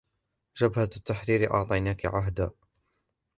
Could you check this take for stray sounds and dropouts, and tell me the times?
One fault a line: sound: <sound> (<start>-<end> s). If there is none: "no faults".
no faults